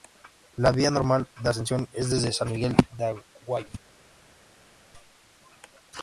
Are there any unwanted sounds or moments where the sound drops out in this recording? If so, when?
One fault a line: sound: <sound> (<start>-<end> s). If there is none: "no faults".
no faults